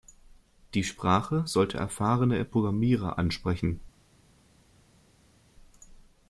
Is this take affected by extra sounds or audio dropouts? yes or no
no